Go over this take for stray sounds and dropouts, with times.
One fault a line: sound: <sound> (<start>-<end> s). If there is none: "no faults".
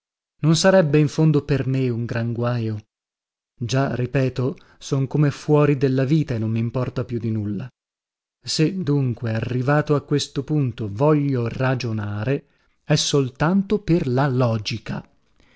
no faults